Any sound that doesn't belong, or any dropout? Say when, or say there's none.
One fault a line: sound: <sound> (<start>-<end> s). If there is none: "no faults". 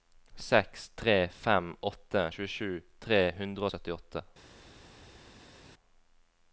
no faults